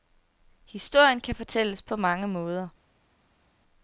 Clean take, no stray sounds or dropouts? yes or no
yes